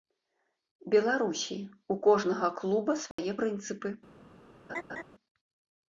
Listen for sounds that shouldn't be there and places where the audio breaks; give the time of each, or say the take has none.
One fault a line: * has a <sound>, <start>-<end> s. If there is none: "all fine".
* has a dropout, 3.1-3.2 s
* has a laugh, 4.7-5.0 s